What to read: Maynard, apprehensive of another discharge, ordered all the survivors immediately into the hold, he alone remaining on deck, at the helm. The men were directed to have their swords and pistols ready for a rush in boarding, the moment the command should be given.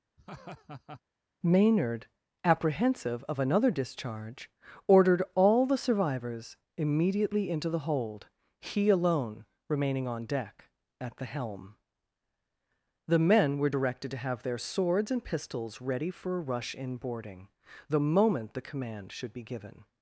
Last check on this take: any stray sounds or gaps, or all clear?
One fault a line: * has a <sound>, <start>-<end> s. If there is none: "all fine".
* has a laugh, 0.2-1.0 s